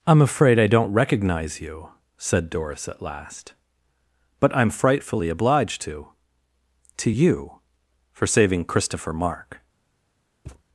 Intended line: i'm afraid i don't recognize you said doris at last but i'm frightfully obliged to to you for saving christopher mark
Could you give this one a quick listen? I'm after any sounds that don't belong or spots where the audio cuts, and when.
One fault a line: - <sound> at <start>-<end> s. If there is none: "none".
- thud at 10.5-10.6 s